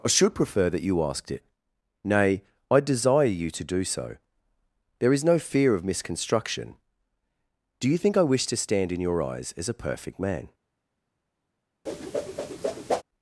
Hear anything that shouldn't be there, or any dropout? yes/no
yes